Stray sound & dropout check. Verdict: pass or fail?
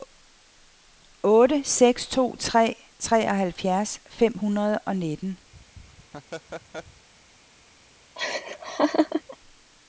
fail